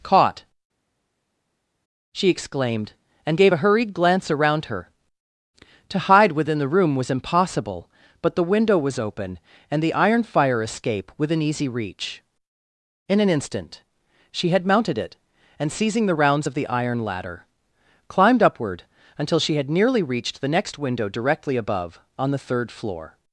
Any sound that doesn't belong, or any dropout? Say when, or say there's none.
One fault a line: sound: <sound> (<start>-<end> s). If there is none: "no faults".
no faults